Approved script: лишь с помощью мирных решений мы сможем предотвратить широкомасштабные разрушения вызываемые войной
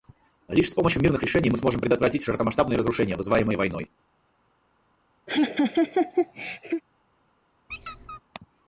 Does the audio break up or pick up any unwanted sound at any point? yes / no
yes